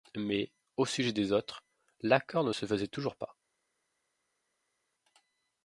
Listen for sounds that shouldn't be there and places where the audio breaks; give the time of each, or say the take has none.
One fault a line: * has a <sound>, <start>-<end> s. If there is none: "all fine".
all fine